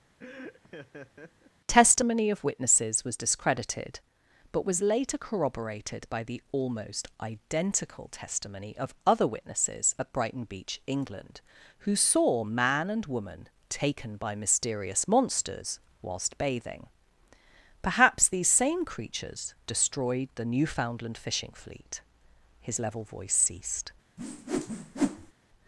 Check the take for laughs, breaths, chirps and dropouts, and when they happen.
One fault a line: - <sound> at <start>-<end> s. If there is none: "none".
- laugh at 0.2-1.5 s
- whoosh at 24.2-25.3 s